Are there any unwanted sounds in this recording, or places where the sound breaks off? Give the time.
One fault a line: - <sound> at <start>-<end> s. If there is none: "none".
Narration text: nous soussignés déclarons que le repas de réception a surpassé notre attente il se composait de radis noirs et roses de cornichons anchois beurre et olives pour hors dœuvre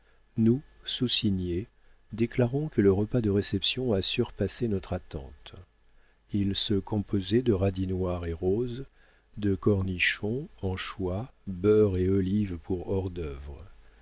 none